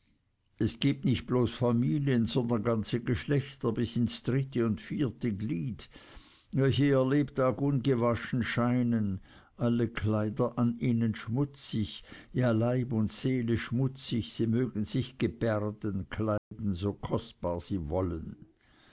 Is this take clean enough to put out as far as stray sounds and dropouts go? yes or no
no